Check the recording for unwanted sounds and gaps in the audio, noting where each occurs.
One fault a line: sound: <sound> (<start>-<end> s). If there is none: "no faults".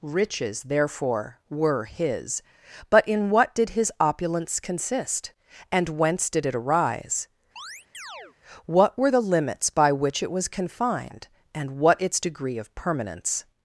sound: chirp (7.6-8.4 s)